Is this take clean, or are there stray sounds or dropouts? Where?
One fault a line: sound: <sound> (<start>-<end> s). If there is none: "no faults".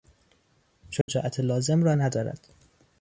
sound: dropout (1.0-1.1 s)